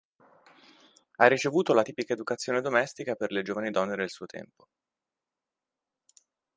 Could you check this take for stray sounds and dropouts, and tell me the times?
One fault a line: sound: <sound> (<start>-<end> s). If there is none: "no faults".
no faults